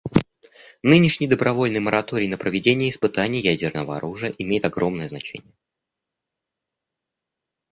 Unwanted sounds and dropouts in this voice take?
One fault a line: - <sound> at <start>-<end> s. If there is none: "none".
none